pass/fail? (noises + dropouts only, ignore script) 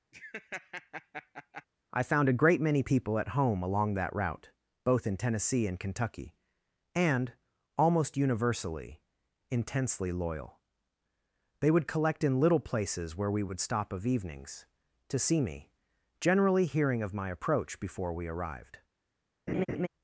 fail